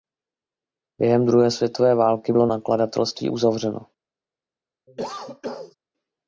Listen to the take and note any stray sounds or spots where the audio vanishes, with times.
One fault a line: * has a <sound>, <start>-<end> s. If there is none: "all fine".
* has a cough, 4.9-5.7 s